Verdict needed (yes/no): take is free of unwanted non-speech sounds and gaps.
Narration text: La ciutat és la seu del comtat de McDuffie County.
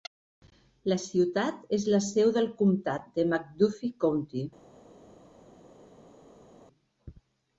yes